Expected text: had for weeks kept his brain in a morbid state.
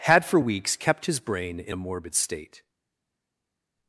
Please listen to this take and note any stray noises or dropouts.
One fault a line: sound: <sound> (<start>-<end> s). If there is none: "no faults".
no faults